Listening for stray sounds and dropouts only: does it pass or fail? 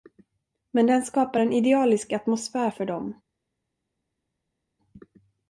pass